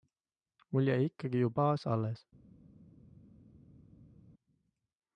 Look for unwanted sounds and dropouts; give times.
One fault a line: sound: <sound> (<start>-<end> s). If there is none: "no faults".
no faults